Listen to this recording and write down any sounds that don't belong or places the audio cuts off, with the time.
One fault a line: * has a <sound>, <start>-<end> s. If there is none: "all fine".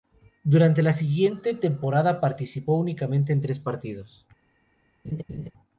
* has a laugh, 5.0-5.5 s